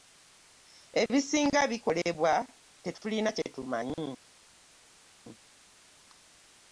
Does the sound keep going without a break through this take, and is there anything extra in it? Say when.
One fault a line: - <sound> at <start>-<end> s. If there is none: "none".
none